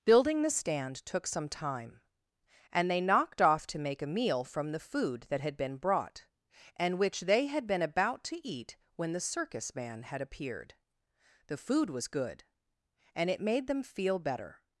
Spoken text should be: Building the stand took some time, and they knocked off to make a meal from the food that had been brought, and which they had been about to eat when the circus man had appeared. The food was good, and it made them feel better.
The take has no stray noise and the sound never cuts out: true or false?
true